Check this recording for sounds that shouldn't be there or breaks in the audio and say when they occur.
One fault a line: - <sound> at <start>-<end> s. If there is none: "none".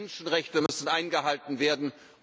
- dropout at 0.7-0.7 s